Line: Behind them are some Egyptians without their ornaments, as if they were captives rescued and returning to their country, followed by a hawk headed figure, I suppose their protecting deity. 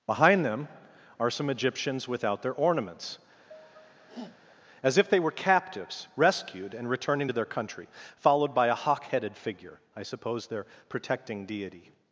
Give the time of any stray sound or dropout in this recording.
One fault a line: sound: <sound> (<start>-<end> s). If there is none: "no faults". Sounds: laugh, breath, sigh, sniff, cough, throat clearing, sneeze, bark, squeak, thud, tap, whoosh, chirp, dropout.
sound: sneeze (3.5-4.6 s)